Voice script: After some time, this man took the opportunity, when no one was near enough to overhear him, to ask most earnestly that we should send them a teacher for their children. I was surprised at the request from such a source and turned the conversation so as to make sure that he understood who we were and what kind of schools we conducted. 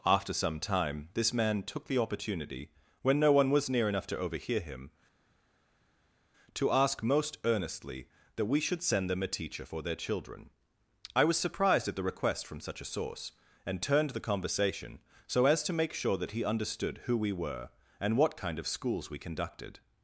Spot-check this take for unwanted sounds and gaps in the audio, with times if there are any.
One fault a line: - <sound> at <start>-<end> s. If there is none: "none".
none